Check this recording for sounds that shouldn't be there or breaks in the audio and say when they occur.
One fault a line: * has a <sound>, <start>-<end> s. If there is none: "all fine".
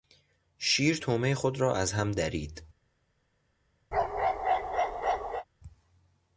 * has a bark, 3.9-5.5 s